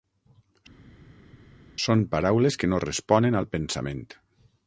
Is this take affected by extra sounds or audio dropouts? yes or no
no